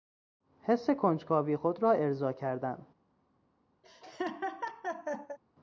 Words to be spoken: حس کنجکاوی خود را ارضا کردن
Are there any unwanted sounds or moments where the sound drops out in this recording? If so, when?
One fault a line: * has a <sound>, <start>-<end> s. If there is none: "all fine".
* has a laugh, 3.8-5.4 s